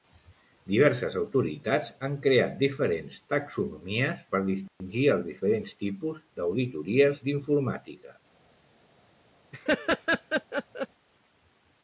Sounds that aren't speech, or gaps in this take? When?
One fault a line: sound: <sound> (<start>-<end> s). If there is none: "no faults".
sound: dropout (4.7-4.8 s)
sound: laugh (9.5-10.9 s)